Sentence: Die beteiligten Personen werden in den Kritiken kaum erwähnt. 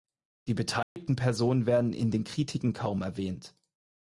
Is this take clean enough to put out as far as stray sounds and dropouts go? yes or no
no